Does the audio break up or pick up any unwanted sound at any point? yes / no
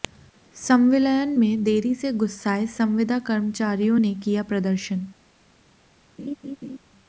yes